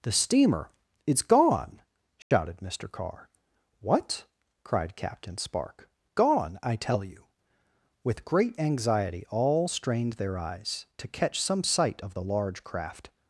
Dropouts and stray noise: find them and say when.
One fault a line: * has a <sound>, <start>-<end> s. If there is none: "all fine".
* has a dropout, 2.2-2.3 s